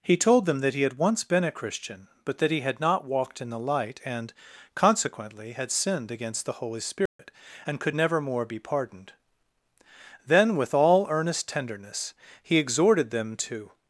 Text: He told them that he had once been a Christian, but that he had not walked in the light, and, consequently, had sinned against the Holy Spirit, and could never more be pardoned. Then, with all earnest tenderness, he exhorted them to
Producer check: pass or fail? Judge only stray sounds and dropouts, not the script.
fail